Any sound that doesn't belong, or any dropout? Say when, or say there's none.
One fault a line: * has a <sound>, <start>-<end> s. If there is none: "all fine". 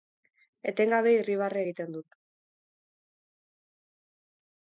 all fine